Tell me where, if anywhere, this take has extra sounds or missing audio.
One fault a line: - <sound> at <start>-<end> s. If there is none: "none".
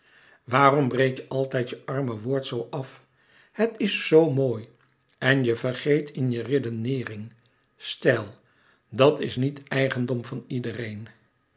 none